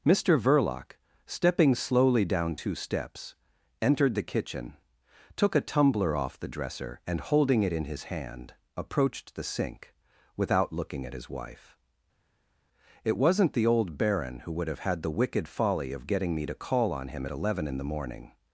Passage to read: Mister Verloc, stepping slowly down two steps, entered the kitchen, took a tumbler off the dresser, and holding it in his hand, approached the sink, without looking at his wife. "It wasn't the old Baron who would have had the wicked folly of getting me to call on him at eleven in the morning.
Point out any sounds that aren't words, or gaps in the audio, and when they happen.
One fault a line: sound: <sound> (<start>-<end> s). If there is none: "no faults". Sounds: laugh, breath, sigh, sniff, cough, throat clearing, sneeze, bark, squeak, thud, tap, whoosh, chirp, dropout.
no faults